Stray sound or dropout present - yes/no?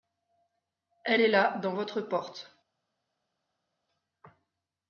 no